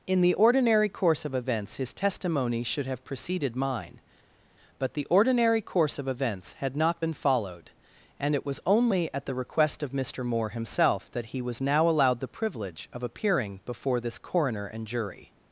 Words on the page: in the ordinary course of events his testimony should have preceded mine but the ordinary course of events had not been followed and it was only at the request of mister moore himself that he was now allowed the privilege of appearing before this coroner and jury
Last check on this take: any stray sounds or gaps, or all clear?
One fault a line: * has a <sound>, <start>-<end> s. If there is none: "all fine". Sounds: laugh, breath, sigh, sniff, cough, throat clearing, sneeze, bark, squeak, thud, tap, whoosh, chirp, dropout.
all fine